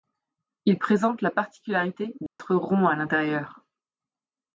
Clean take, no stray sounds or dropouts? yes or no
no